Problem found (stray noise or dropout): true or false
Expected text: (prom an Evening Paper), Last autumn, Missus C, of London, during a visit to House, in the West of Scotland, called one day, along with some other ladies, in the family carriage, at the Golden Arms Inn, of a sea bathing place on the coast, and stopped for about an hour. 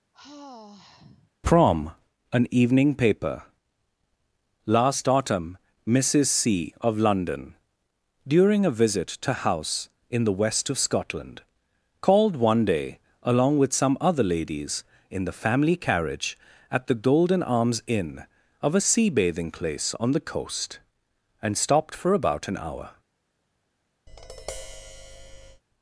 true